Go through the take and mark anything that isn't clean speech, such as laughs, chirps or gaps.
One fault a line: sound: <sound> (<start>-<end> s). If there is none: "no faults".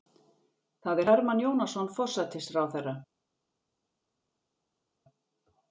no faults